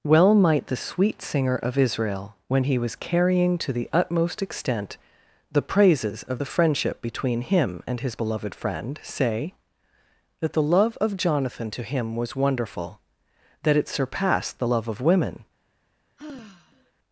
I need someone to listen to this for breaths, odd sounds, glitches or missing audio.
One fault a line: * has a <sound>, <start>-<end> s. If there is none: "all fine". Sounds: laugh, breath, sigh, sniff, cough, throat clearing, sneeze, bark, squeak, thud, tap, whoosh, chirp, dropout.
* has a sigh, 16.2-16.9 s